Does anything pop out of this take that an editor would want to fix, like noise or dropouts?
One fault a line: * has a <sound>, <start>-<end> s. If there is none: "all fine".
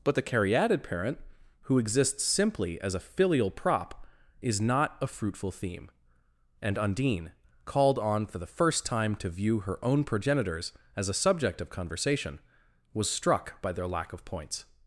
all fine